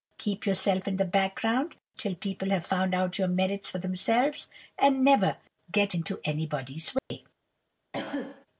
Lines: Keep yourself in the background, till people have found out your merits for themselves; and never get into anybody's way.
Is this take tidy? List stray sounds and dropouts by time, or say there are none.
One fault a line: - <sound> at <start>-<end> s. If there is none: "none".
- dropout at 7.0-7.1 s
- cough at 7.9-8.5 s